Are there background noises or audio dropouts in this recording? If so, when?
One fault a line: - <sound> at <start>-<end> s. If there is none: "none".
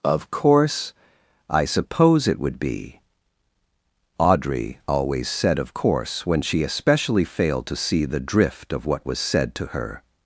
none